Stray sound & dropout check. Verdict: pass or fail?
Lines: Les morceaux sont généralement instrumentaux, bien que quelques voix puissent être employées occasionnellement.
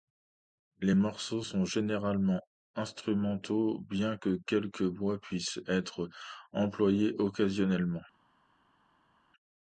pass